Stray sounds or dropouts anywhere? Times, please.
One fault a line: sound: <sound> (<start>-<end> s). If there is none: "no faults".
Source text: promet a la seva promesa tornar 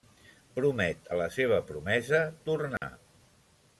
sound: dropout (2.8-2.8 s)